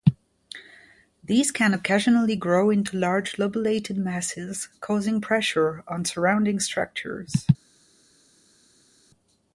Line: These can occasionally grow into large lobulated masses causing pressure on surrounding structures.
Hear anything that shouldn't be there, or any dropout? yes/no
no